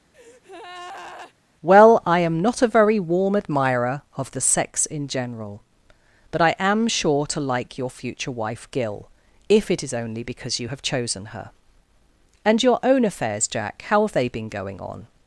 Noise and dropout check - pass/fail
fail